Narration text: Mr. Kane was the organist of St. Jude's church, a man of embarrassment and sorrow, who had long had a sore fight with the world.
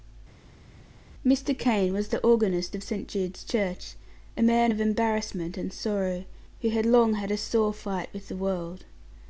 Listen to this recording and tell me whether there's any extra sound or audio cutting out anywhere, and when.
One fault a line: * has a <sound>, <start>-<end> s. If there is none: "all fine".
all fine